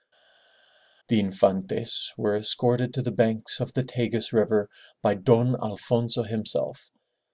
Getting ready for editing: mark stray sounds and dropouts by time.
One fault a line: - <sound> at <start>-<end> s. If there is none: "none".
none